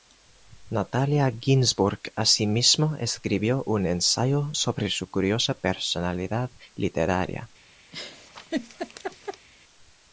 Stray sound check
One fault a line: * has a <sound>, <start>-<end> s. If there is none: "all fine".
* has a laugh, 7.9-9.5 s